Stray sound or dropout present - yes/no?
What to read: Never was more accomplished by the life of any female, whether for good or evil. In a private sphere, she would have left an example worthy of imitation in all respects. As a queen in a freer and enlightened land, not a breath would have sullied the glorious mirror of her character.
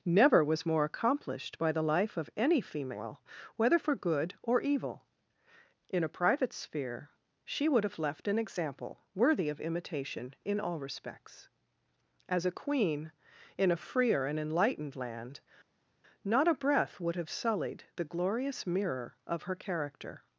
no